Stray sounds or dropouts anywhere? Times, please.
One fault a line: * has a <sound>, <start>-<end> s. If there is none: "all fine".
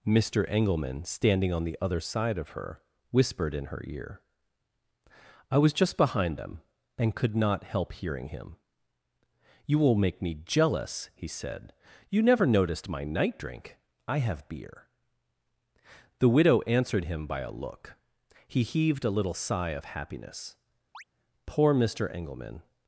* has a chirp, 20.9-21.0 s